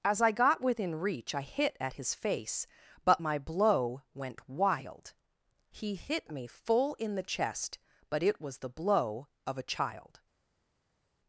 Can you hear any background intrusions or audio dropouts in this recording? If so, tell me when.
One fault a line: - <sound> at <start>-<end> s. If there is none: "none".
none